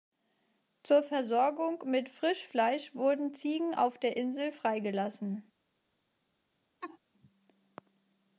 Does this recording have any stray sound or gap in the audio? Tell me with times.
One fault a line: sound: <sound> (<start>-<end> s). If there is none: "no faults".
sound: laugh (6.8-7.0 s)